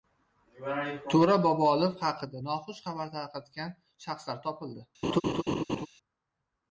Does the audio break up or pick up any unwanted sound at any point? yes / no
yes